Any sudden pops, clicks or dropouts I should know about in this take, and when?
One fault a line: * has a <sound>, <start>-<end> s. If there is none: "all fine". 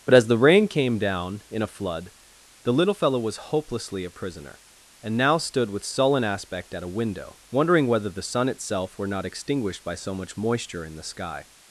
all fine